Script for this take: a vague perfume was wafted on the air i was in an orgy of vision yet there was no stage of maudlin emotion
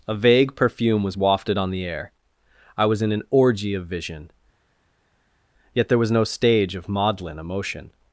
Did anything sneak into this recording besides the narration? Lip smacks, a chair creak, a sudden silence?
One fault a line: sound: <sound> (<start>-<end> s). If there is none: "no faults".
no faults